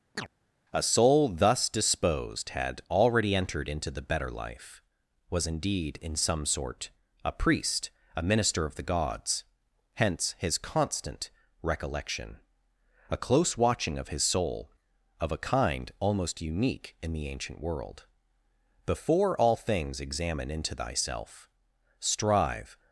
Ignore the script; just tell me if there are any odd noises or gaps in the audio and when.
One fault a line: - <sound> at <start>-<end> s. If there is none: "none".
- chirp at 0.2-0.3 s